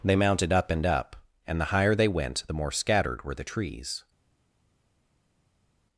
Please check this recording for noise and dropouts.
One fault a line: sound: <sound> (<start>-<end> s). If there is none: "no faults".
no faults